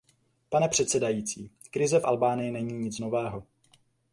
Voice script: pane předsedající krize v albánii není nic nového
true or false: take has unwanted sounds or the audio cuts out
false